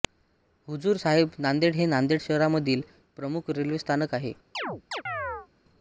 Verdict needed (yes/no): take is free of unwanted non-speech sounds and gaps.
no